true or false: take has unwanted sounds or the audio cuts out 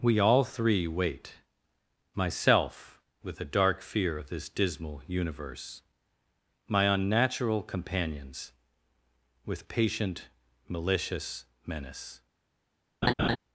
true